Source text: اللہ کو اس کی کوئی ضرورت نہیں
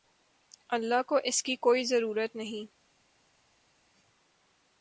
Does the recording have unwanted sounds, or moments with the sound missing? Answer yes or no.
no